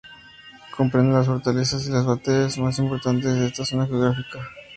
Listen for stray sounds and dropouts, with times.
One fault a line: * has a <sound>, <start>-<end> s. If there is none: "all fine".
all fine